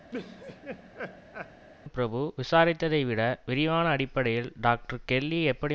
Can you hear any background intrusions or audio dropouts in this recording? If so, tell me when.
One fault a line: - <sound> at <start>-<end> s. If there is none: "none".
- laugh at 0.1-1.7 s